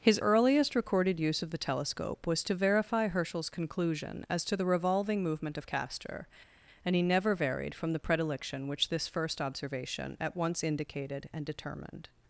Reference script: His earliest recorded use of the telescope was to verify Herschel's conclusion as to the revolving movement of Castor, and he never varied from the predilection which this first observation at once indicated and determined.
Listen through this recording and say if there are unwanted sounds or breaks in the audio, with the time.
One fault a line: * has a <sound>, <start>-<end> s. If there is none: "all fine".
all fine